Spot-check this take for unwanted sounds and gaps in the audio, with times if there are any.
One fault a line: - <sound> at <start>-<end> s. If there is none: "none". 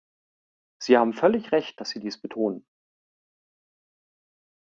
none